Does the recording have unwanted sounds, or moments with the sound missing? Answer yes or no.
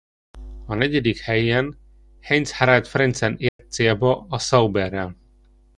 yes